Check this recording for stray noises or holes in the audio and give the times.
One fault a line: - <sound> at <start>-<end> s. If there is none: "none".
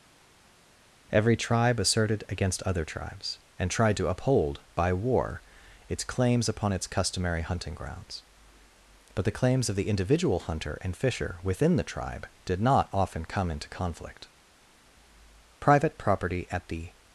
none